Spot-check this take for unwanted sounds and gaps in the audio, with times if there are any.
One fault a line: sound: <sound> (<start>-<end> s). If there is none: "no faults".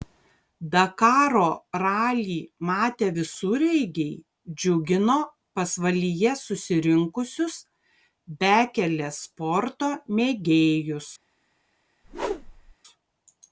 sound: whoosh (12.0-12.7 s)